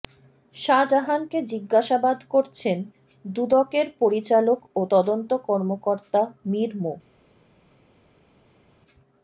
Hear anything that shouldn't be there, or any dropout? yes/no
no